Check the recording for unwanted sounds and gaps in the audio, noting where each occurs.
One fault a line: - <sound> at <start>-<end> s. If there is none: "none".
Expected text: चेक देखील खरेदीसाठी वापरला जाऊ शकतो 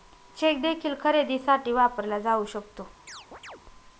- chirp at 3.1-3.6 s